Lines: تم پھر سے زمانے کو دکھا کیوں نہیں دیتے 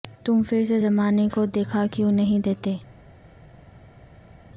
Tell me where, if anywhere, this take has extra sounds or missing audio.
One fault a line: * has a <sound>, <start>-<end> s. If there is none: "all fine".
all fine